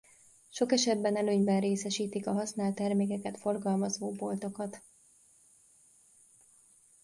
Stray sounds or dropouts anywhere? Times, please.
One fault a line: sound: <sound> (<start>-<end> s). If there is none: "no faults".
no faults